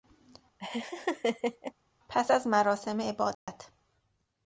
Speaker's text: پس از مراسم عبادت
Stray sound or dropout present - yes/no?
yes